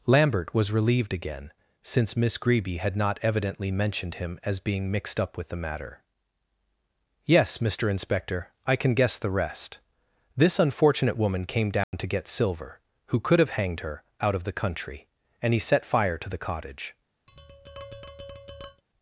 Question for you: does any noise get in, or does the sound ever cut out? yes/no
yes